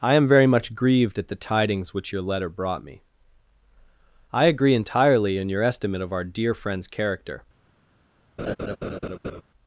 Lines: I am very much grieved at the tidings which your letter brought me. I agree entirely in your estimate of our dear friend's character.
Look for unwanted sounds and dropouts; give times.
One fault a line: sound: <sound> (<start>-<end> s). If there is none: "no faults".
sound: laugh (8.4-9.4 s)